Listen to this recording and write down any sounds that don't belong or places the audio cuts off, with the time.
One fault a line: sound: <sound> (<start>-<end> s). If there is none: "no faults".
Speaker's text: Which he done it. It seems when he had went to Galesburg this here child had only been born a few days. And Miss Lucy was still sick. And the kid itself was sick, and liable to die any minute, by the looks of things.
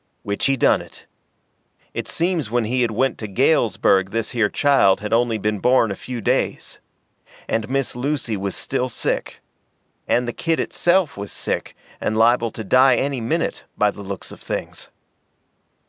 no faults